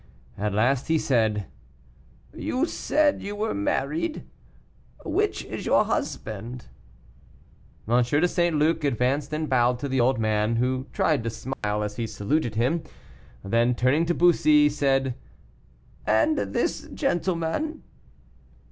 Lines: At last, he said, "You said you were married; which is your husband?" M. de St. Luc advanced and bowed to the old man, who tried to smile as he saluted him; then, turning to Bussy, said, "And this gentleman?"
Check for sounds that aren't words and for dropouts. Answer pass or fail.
fail